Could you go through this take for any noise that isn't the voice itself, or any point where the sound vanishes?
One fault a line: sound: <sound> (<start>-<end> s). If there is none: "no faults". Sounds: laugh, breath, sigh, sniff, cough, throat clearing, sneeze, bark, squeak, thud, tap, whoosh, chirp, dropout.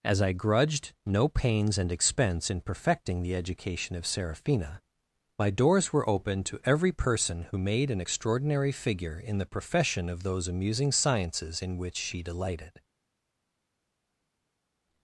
no faults